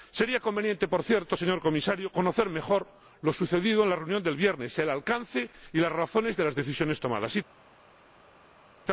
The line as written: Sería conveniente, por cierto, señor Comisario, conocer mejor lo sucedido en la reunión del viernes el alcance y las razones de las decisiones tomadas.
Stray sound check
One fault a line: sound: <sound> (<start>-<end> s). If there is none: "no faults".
no faults